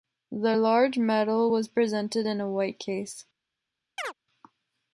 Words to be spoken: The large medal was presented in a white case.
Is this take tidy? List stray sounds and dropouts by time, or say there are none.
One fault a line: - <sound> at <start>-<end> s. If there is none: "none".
- chirp at 4.0-4.1 s